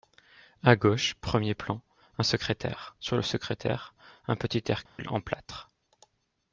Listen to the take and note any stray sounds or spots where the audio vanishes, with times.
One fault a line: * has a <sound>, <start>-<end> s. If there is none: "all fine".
* has a dropout, 4.9-5.0 s